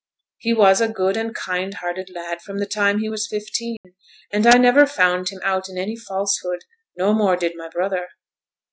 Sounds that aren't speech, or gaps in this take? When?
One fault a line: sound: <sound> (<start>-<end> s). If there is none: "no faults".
sound: dropout (3.8-3.8 s)